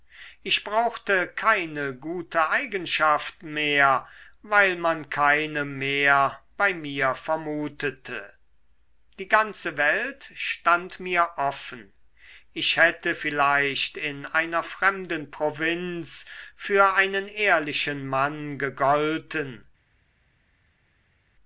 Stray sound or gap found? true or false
false